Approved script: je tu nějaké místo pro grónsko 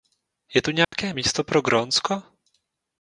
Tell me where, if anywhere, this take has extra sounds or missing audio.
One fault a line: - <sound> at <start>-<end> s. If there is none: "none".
- dropout at 0.8-0.9 s